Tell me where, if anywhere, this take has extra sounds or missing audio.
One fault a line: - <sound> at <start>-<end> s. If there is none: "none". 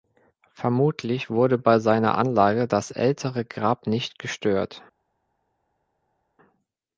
none